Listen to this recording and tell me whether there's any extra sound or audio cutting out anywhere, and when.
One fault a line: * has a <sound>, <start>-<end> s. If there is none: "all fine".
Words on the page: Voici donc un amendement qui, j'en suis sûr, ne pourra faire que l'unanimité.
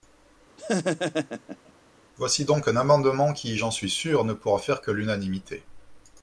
* has a laugh, 0.6-1.7 s